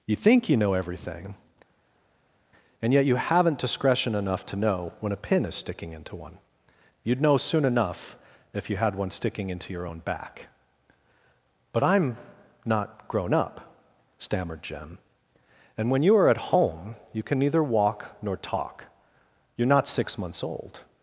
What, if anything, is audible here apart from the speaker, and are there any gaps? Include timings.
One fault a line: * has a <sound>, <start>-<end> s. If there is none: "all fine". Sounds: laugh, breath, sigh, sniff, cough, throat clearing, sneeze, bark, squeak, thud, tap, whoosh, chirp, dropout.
all fine